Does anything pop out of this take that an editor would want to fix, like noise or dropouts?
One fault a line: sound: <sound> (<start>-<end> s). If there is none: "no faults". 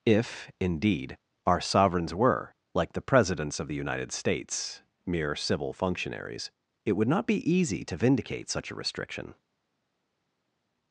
no faults